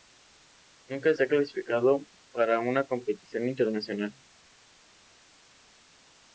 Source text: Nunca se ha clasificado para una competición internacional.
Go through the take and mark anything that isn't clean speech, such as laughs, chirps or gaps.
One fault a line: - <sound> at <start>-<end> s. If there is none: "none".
none